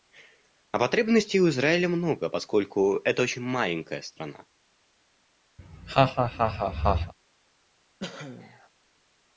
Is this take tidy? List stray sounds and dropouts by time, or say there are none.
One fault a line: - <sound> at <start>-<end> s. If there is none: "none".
- laugh at 5.6-7.1 s
- cough at 8.0-8.7 s